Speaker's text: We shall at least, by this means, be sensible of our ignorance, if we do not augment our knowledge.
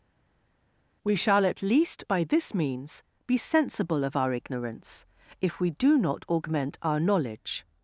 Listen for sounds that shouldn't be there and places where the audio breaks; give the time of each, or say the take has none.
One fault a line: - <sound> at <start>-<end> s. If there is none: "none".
none